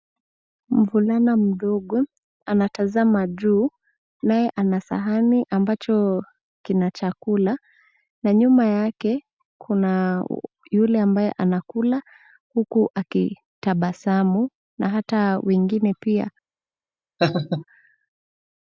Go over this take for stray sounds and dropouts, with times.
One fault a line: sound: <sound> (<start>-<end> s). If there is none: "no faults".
sound: laugh (17.2-17.6 s)